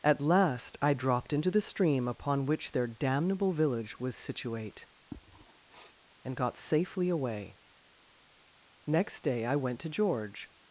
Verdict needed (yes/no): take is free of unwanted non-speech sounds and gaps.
no